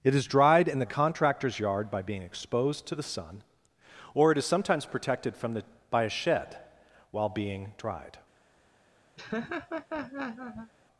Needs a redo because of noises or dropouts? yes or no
yes